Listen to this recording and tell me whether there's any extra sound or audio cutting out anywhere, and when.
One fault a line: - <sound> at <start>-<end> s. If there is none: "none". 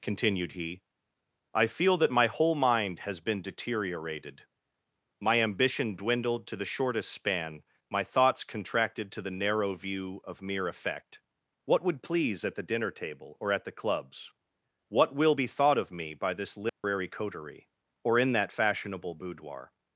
- dropout at 16.7-16.8 s